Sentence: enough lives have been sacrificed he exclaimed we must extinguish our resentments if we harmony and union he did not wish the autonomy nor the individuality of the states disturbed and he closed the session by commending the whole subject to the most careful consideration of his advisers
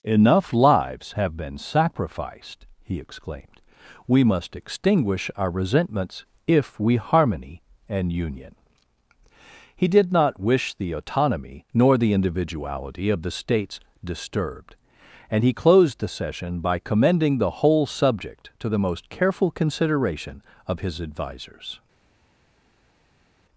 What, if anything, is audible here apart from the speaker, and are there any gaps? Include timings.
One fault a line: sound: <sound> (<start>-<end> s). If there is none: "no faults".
no faults